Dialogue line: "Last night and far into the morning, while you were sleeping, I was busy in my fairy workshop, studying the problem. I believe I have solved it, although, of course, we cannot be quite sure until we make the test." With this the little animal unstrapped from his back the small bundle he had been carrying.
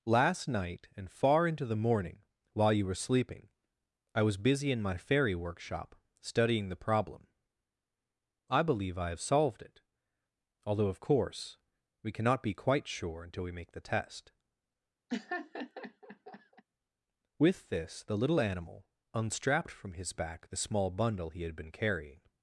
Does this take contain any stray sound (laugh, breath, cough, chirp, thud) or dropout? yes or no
yes